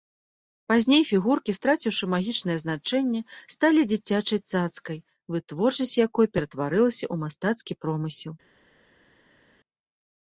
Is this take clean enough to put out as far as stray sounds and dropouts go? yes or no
yes